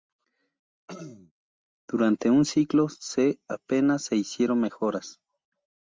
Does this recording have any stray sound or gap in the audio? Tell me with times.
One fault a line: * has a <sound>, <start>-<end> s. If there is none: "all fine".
* has a throat clearing, 0.9-1.3 s